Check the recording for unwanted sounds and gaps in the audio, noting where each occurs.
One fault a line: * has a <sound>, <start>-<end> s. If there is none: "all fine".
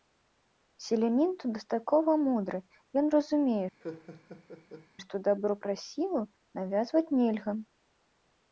* has a laugh, 3.8-4.9 s